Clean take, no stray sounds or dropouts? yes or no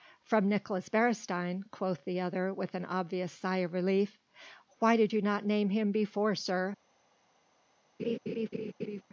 no